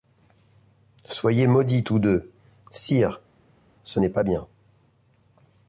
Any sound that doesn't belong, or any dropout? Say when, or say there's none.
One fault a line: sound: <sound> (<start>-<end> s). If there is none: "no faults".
no faults